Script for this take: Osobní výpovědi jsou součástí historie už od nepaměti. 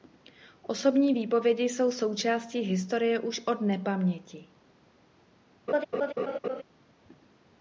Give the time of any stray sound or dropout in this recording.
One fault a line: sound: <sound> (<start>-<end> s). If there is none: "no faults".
sound: laugh (5.7-6.6 s)